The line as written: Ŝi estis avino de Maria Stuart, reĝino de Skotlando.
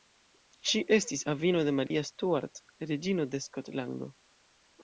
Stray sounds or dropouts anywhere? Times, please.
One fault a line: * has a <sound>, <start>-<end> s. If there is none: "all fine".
* has a dropout, 1.9-1.9 s